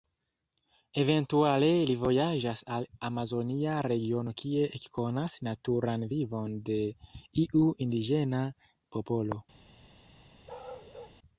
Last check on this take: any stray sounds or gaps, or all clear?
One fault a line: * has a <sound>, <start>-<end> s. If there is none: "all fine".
* has a bark, 10.5-11.2 s